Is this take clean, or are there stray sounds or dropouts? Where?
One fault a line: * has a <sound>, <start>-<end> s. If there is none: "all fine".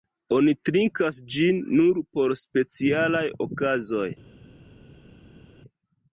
all fine